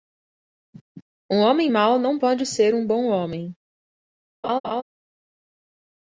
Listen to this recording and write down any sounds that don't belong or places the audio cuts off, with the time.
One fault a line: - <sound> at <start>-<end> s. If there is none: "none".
- laugh at 4.4-4.8 s